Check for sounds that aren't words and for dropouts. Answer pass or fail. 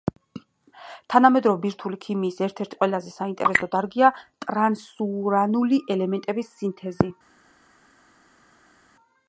pass